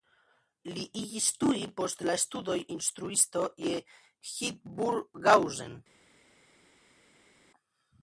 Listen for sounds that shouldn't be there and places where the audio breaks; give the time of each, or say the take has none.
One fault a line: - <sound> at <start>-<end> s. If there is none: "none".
none